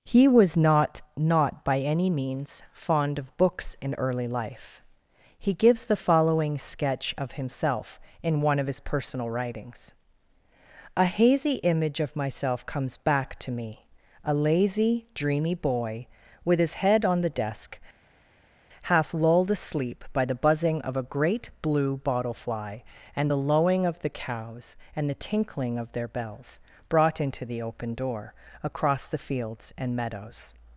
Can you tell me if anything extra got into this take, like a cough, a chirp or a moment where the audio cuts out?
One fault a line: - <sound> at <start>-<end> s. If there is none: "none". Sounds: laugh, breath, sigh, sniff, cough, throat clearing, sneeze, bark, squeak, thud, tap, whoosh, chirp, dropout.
none